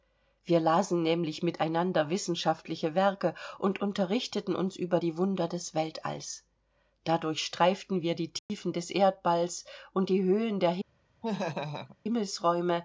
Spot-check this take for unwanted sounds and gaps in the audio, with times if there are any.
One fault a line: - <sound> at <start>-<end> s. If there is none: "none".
- dropout at 8.4-8.5 s
- laugh at 11.2-12.0 s